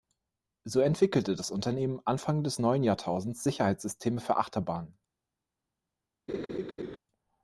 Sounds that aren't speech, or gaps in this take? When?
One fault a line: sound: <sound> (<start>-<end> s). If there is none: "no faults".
sound: laugh (6.3-7.0 s)